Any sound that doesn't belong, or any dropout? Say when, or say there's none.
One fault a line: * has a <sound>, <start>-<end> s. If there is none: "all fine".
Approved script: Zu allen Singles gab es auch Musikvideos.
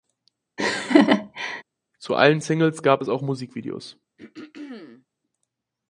* has a laugh, 0.6-1.6 s
* has a throat clearing, 4.2-5.1 s